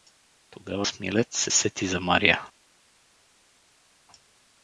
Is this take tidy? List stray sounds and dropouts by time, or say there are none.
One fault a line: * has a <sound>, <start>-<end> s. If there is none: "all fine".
all fine